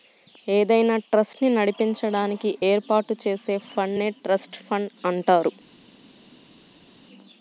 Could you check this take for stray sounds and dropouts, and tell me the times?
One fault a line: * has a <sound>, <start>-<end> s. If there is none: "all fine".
all fine